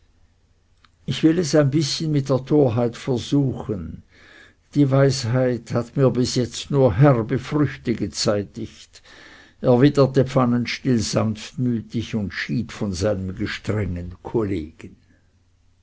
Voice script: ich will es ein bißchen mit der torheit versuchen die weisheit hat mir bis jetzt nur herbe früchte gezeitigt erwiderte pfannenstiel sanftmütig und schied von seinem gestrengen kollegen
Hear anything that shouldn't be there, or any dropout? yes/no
no